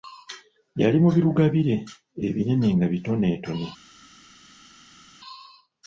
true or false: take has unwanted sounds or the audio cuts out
false